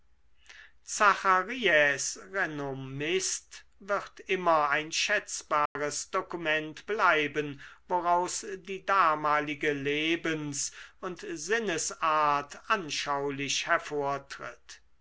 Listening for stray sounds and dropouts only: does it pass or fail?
fail